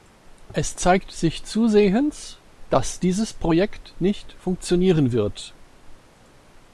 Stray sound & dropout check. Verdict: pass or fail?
pass